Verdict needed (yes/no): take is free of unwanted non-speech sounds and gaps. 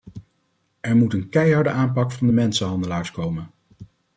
yes